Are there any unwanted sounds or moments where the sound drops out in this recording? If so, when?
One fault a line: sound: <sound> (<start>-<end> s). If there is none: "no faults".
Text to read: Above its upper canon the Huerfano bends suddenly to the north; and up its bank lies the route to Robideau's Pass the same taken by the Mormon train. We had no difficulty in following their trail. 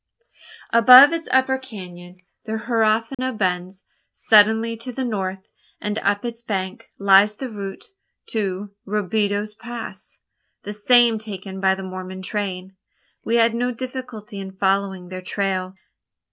sound: dropout (3.1-3.2 s)